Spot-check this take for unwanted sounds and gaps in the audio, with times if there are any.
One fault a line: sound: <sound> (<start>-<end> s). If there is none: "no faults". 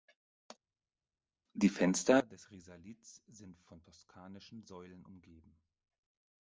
no faults